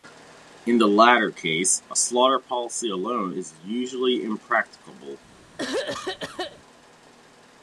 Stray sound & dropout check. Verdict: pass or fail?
fail